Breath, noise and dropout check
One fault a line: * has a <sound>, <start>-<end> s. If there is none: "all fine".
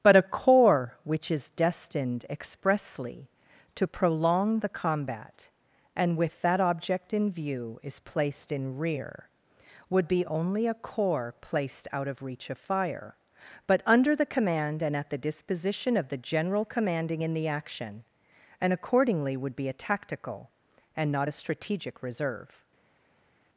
all fine